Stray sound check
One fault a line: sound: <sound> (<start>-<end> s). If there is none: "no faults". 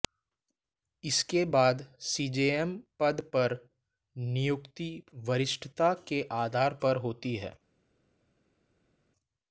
no faults